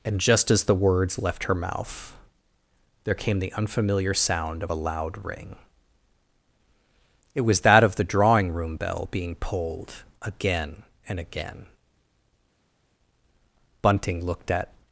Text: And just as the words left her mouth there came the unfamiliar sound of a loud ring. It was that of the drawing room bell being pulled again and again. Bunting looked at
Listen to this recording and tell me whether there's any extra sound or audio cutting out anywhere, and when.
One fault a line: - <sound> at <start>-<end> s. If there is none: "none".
none